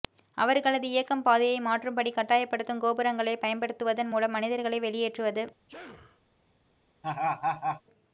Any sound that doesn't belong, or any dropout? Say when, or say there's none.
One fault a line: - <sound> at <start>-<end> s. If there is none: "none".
- sneeze at 5.7-6.2 s
- laugh at 7.0-7.8 s